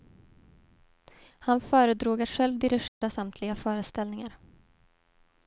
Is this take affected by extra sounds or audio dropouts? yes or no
yes